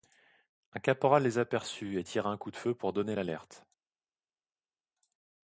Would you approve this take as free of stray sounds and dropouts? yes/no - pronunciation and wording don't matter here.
yes